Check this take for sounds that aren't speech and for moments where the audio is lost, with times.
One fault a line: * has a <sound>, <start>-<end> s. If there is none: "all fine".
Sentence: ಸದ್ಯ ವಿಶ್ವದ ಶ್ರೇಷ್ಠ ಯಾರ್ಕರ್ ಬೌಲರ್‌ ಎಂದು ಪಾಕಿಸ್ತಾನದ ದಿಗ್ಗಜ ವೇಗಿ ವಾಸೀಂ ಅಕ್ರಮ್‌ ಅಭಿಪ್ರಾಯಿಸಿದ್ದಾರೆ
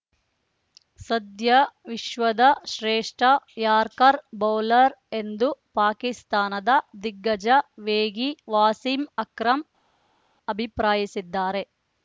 all fine